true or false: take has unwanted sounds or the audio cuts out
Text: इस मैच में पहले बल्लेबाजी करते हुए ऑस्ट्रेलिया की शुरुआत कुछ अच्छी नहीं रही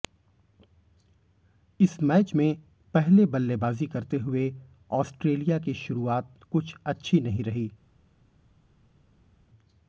false